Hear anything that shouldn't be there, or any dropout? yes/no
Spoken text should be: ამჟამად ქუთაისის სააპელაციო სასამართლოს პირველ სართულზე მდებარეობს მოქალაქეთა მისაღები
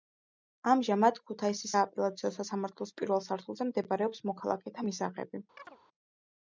yes